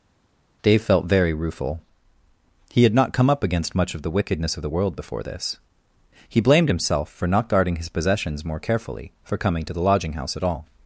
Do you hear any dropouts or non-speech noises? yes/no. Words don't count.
no